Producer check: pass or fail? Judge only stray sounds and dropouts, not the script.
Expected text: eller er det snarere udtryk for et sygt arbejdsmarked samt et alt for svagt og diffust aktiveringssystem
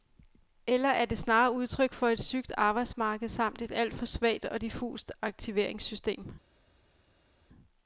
pass